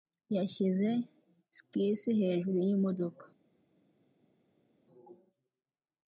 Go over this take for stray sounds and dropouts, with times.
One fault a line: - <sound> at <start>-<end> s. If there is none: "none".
none